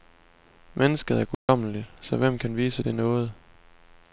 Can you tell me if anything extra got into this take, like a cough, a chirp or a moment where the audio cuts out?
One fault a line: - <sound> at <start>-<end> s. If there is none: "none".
- dropout at 1.3-1.5 s